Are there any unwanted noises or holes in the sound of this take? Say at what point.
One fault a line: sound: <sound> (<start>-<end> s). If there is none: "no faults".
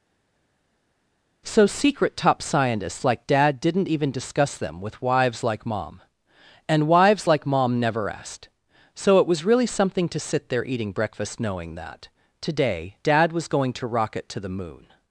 no faults